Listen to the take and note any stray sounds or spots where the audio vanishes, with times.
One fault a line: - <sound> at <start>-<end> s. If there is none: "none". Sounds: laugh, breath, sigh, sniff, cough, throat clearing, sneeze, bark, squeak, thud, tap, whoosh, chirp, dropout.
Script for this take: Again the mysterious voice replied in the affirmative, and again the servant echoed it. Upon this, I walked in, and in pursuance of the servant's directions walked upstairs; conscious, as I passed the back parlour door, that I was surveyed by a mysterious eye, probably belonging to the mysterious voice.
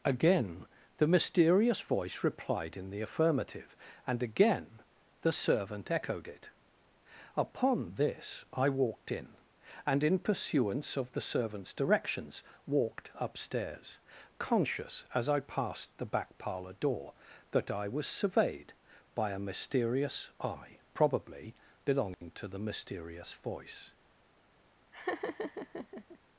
- dropout at 22.1-22.2 s
- laugh at 24.9-26.2 s